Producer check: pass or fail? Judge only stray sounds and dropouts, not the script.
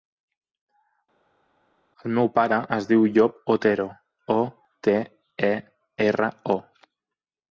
pass